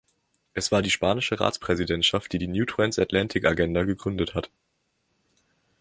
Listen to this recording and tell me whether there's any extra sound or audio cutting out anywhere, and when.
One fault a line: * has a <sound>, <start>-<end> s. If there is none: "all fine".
all fine